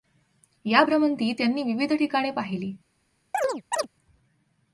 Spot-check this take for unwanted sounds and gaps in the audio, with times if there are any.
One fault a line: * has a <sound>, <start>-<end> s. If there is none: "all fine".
* has a chirp, 3.3-3.9 s